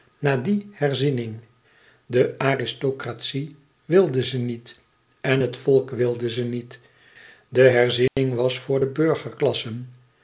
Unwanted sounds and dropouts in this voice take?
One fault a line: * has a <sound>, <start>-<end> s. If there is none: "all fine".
* has a dropout, 8.1-8.2 s